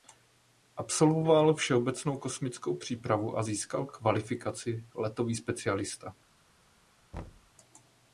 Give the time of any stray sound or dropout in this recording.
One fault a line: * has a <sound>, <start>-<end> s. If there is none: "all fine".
* has a thud, 7.1-7.5 s